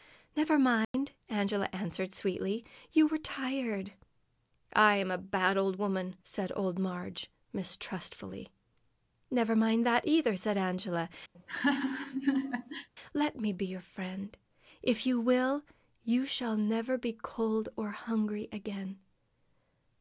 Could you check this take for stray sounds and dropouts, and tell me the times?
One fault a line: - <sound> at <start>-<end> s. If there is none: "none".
- dropout at 0.8-0.9 s
- laugh at 11.3-12.9 s